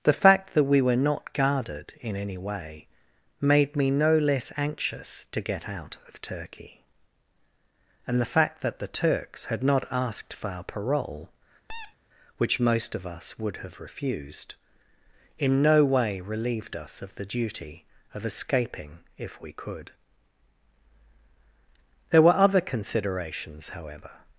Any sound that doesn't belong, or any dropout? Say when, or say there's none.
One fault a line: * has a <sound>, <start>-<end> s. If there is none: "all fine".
* has a squeak, 11.7-12.0 s